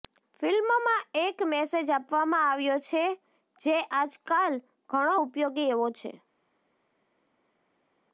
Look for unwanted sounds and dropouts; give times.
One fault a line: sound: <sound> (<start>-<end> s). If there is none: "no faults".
no faults